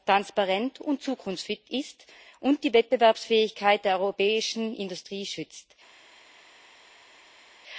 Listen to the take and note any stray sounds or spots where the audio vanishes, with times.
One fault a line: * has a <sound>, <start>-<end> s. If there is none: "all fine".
all fine